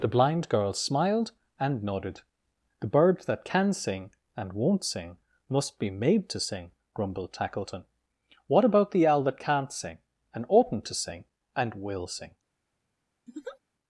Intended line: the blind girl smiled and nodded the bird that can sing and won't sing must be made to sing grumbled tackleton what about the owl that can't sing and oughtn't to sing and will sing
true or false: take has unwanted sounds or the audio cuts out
true